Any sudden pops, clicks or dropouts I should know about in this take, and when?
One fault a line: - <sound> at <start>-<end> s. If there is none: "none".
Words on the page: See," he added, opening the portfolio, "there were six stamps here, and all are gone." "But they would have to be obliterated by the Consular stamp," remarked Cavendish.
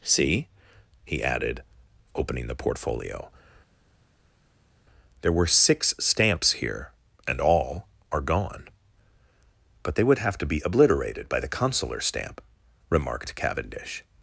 none